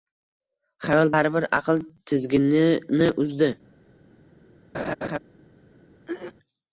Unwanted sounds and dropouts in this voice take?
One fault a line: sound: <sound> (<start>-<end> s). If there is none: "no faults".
sound: laugh (4.7-5.2 s)
sound: throat clearing (6.1-6.3 s)